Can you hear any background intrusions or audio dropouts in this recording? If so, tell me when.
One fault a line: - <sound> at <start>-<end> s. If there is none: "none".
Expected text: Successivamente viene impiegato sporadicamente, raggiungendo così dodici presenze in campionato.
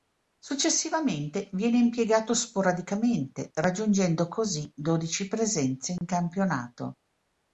- dropout at 6.0-6.0 s